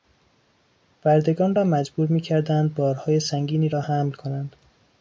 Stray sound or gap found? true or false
false